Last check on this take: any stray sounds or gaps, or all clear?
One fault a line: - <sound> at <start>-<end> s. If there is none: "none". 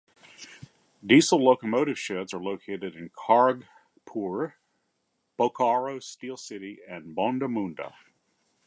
none